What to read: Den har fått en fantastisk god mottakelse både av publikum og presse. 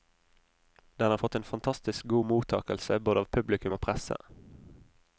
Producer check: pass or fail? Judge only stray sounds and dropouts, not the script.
pass